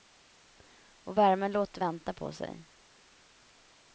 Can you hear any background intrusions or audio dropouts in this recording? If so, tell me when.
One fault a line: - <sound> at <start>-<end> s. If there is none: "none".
none